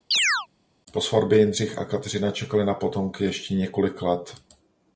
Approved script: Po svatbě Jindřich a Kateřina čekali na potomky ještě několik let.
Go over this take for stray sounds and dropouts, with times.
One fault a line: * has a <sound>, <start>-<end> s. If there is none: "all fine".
* has a chirp, 0.1-0.5 s